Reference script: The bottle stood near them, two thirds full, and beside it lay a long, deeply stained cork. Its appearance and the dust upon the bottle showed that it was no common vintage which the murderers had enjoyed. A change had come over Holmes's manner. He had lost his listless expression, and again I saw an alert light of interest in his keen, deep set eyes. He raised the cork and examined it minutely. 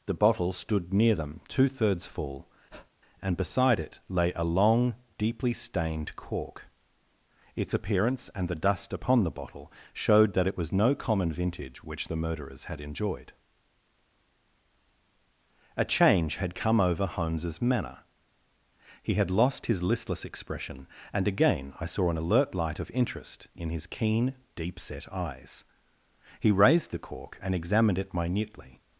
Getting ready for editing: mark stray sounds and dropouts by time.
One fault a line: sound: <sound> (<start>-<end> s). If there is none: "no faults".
sound: breath (2.7-2.9 s)